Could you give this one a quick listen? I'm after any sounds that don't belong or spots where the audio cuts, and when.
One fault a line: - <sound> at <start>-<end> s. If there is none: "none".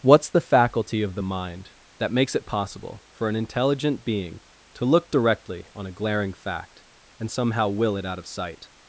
none